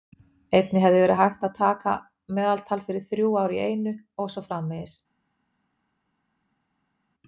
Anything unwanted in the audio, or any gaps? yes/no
no